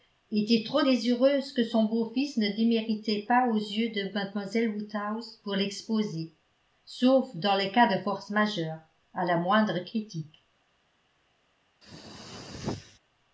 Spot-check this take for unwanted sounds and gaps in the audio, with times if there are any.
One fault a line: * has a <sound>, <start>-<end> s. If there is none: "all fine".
* has a throat clearing, 11.8-13.0 s